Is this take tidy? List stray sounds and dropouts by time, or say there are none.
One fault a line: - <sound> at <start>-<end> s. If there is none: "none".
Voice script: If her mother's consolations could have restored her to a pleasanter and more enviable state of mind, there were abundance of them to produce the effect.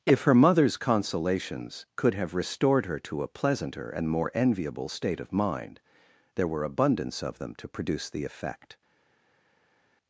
none